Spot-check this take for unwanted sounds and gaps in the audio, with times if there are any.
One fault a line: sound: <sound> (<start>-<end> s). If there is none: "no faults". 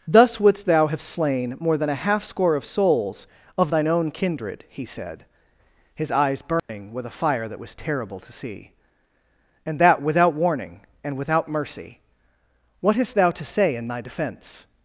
sound: dropout (6.6-6.7 s)